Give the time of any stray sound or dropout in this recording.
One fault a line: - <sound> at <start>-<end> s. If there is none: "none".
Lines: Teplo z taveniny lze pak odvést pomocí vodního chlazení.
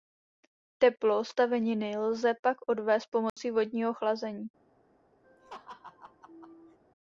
- dropout at 3.3-3.4 s
- laugh at 5.2-6.8 s